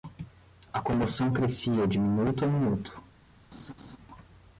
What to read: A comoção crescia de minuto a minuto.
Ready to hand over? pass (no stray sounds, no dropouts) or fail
fail